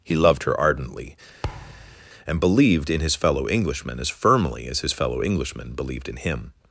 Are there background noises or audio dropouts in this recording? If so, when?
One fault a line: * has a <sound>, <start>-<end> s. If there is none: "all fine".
* has a thud, 1.4-2.1 s